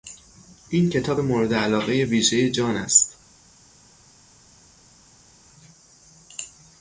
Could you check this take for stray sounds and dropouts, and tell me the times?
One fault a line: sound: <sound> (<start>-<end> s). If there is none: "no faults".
no faults